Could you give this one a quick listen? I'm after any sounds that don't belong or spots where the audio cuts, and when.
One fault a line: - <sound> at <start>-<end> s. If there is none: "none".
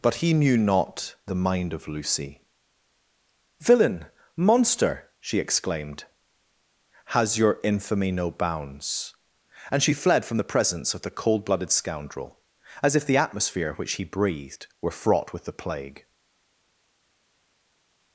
none